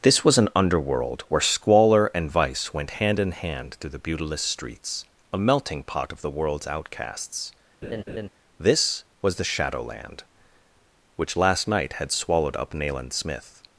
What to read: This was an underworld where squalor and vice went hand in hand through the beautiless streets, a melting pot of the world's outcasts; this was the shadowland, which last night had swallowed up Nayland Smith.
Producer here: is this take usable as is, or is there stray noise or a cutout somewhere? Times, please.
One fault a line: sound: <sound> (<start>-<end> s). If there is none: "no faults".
sound: laugh (7.8-8.3 s)